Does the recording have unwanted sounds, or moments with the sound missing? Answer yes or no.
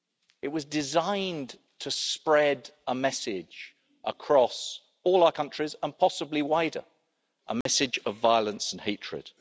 yes